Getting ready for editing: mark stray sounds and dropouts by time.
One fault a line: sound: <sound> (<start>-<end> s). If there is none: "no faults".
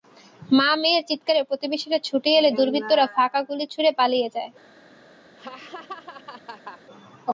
sound: laugh (5.4-6.8 s)